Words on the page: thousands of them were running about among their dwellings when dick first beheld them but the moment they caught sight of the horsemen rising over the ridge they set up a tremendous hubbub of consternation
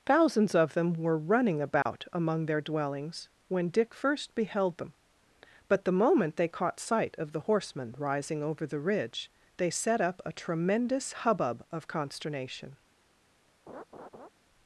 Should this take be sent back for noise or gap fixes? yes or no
yes